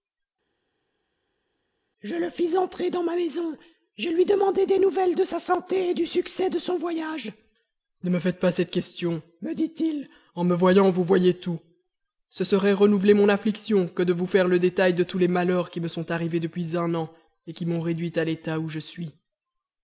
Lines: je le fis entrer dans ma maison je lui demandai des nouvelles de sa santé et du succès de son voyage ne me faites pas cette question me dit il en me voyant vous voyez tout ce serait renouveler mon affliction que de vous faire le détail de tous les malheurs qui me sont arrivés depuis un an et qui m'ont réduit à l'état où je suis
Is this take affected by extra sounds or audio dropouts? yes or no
no